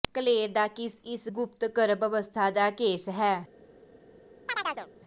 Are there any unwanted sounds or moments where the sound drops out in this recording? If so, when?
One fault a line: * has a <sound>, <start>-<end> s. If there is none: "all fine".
* has a chirp, 4.5-4.9 s